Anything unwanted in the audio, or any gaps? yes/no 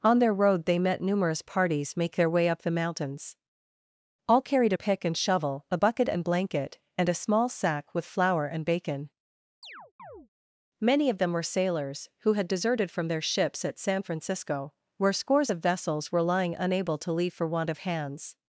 yes